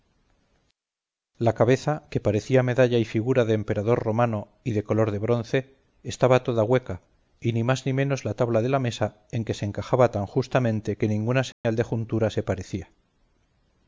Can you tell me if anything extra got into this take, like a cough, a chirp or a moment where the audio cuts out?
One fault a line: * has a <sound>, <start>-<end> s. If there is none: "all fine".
* has a dropout, 11.5-11.6 s